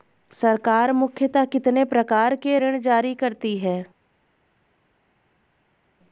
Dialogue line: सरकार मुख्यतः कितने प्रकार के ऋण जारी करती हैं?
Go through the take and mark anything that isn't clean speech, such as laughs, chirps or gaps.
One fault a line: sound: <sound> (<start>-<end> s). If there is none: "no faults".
no faults